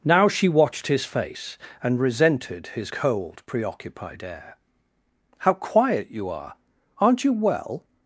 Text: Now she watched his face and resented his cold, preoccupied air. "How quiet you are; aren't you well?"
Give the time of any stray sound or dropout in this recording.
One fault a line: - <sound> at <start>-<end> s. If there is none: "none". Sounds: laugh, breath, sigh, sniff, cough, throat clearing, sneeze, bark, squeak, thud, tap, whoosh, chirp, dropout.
none